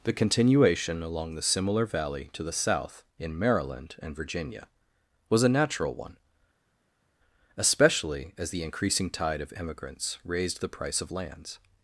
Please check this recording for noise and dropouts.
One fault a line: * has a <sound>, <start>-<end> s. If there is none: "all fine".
all fine